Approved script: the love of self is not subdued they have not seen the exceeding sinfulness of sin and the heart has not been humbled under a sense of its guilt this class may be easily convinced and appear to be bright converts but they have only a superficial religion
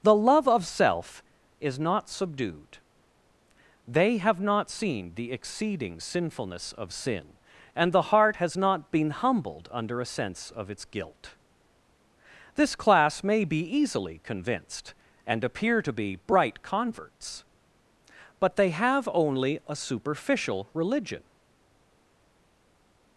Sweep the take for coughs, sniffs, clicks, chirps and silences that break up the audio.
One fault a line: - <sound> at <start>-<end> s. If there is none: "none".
none